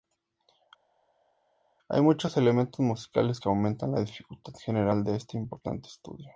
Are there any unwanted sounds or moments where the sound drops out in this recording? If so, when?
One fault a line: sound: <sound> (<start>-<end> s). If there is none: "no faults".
no faults